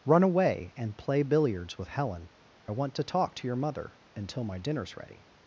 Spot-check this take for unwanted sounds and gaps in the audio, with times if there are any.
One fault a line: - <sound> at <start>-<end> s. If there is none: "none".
none